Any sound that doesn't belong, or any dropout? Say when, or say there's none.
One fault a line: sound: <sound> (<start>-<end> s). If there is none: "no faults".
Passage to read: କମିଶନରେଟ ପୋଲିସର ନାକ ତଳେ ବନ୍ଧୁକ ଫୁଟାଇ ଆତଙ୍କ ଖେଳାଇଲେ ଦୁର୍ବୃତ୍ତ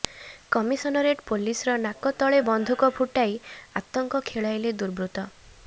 no faults